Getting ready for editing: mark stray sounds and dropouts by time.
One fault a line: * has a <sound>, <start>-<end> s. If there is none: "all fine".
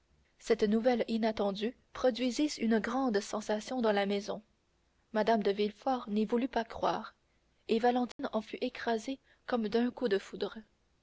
* has a dropout, 8.1-8.2 s